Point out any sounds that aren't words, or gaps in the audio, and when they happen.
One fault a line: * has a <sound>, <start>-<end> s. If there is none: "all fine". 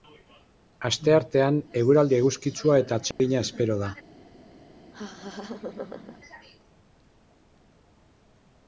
* has a dropout, 3.1-3.2 s
* has a laugh, 4.9-6.2 s